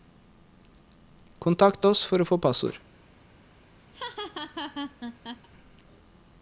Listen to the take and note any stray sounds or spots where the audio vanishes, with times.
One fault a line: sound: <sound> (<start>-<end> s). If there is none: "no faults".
sound: laugh (3.9-5.5 s)